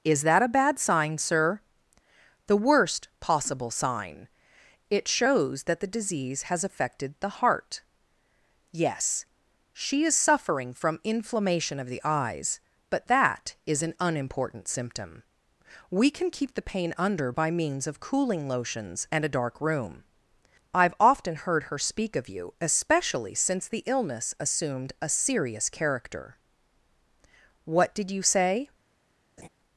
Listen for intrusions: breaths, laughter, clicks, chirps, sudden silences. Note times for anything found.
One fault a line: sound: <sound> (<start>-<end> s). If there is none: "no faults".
sound: laugh (29.4-29.5 s)